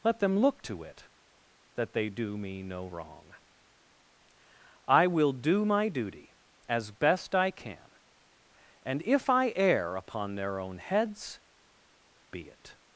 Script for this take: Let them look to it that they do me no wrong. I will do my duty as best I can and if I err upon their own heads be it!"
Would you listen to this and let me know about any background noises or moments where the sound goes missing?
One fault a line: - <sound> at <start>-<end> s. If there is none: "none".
none